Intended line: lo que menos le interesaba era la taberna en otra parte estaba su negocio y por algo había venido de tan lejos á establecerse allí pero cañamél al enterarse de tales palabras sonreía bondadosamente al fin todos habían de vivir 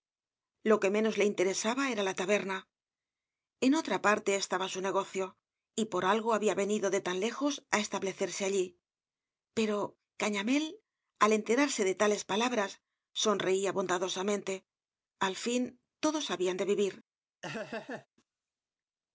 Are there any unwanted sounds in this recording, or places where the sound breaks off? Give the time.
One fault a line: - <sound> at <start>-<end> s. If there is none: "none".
- laugh at 17.4-18.1 s